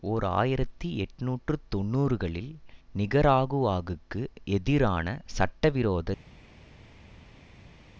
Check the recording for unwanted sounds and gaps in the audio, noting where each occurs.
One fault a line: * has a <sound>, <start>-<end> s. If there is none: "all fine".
all fine